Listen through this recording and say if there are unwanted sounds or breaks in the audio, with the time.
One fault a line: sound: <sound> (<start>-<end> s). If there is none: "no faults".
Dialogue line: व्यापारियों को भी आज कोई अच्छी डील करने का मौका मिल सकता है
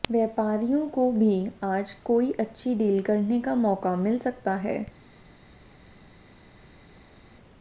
no faults